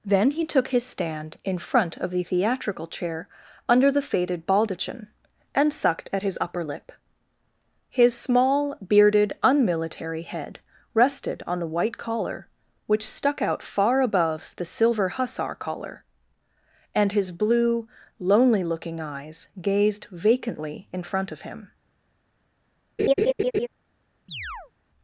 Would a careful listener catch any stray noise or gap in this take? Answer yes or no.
yes